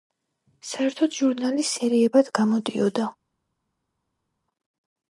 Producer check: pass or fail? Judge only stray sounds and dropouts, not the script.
pass